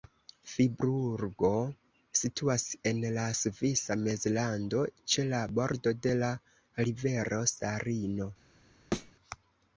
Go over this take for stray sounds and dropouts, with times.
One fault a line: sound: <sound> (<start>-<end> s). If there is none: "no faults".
sound: thud (8.9-9.1 s)